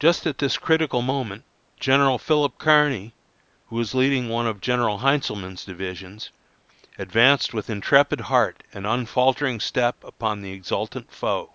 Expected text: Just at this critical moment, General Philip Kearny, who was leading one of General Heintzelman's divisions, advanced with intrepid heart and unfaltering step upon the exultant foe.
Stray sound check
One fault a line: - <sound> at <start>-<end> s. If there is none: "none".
none